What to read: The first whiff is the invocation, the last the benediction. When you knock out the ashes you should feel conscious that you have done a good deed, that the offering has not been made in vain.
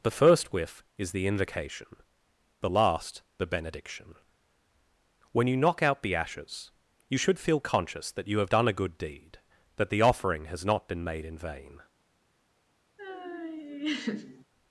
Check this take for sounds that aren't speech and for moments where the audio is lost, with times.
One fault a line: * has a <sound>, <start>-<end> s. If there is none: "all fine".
* has a laugh, 13.0-14.5 s